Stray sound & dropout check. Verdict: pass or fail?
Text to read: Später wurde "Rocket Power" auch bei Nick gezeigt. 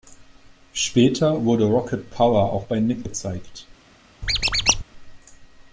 fail